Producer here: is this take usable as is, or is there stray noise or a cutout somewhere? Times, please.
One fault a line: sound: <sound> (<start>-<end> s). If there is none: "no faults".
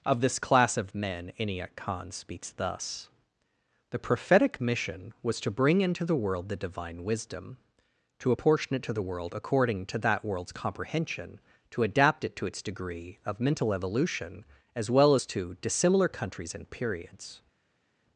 no faults